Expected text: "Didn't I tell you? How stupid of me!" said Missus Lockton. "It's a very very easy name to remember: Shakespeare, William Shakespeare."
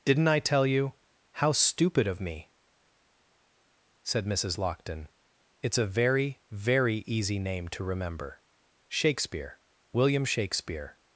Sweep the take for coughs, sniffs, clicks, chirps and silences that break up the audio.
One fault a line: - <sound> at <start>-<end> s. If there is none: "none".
none